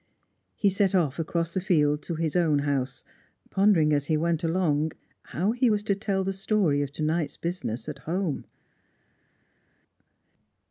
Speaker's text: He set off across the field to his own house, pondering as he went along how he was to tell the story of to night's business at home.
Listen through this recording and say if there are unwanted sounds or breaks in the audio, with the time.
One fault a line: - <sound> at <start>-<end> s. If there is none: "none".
none